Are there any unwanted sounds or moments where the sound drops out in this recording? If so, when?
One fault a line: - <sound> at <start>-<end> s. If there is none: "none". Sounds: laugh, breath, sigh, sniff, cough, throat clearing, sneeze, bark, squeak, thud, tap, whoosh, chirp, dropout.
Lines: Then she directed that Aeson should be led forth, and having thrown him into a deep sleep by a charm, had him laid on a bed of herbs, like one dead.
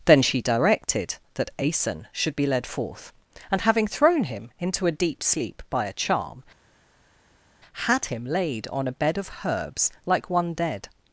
none